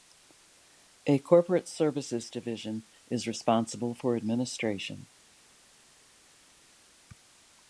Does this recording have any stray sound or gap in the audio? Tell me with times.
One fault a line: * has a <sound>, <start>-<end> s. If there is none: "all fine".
all fine